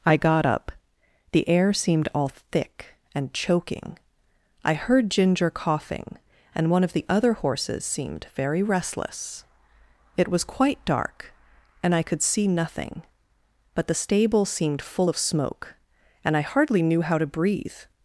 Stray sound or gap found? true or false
false